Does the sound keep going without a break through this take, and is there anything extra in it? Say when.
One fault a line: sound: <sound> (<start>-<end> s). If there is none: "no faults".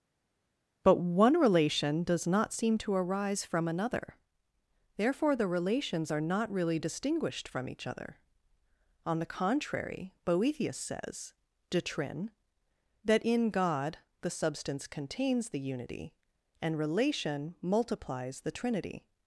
no faults